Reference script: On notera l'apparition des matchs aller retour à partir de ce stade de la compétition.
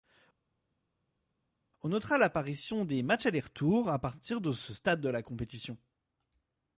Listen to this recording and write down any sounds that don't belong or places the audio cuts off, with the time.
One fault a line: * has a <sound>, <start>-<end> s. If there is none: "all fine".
all fine